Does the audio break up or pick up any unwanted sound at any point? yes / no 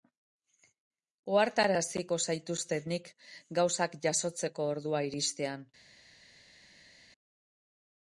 no